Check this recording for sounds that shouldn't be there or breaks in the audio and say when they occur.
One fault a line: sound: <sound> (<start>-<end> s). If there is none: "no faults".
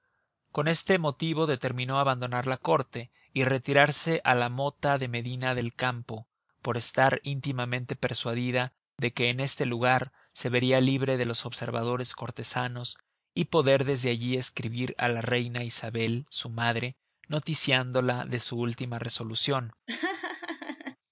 sound: laugh (19.9-21.0 s)